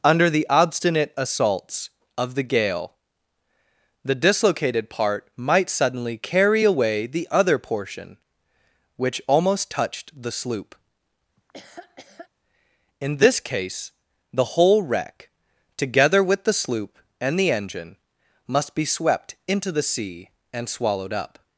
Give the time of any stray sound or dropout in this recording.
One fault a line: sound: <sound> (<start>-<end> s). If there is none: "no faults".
sound: laugh (11.4-12.3 s)